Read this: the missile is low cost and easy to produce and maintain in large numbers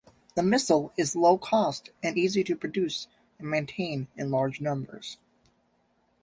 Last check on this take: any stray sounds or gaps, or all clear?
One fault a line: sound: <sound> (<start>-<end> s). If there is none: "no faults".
no faults